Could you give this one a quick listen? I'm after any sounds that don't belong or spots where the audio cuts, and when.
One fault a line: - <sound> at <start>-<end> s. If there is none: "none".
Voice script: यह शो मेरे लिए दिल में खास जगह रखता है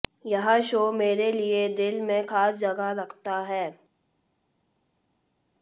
none